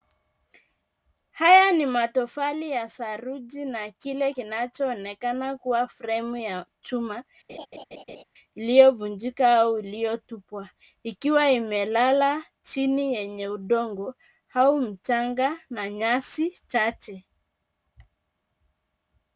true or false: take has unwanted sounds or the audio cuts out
true